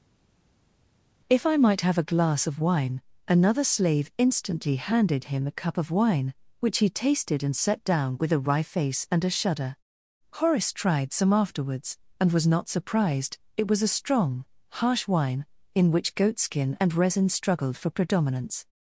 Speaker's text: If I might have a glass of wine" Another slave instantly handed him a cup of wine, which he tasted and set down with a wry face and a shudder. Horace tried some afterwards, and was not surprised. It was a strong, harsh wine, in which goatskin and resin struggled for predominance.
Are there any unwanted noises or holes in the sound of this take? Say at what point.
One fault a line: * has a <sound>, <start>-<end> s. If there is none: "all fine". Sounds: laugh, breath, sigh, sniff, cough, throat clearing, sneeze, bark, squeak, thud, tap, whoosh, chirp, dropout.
all fine